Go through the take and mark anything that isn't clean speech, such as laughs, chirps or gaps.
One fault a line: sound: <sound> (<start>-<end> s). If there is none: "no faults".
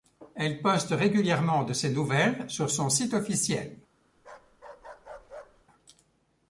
sound: bark (4.2-5.7 s)